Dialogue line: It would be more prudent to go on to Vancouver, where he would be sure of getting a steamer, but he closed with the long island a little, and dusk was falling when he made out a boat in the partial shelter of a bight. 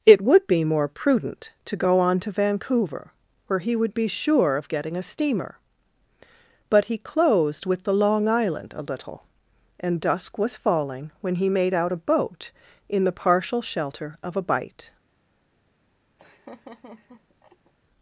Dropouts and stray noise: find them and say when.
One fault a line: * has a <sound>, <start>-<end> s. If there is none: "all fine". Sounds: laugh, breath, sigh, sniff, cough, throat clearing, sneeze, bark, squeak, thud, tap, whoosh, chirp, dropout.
* has a laugh, 16.2-17.7 s